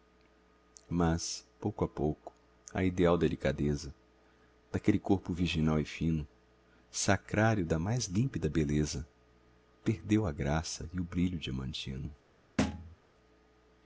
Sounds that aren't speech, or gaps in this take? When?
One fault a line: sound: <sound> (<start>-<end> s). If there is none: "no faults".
sound: thud (12.6-13.0 s)